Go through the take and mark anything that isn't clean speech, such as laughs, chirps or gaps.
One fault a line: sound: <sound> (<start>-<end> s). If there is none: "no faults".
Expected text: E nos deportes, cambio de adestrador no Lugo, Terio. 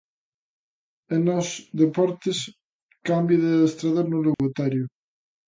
sound: dropout (4.3-4.4 s)